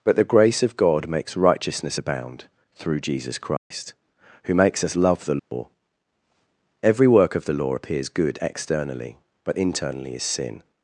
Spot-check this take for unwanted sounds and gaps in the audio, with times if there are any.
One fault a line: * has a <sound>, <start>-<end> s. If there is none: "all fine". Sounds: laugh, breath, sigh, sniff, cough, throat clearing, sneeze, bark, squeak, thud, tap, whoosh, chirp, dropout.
* has a dropout, 3.6-3.7 s
* has a dropout, 5.4-5.5 s